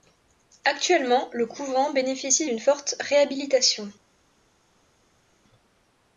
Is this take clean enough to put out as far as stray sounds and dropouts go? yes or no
yes